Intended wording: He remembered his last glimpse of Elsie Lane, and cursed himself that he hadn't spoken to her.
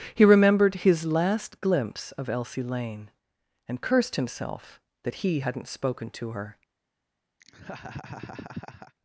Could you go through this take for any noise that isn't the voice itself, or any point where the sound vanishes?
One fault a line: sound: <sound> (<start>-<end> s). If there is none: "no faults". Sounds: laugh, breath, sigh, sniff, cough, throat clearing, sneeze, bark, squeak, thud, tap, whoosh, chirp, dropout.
sound: laugh (7.4-8.9 s)